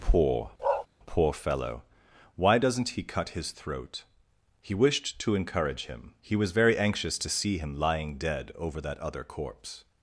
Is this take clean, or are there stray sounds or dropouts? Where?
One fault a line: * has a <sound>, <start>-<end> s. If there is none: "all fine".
* has a bark, 0.6-0.9 s